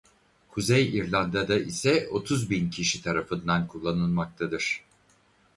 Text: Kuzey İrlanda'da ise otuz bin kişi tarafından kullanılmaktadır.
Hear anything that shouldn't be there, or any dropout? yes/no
no